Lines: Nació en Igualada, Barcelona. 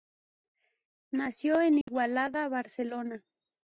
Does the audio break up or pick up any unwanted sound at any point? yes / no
yes